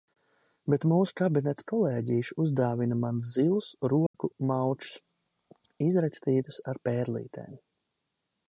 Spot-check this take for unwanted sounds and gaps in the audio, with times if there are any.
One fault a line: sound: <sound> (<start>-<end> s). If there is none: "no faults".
sound: dropout (4.1-4.1 s)